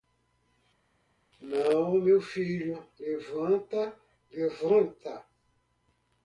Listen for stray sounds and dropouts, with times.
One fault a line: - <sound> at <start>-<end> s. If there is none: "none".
none